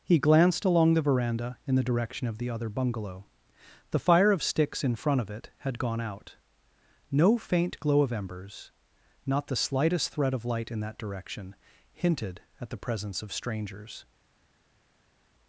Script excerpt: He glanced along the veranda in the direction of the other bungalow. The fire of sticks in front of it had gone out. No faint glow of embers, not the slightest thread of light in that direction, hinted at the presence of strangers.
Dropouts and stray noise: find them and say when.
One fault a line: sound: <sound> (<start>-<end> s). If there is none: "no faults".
no faults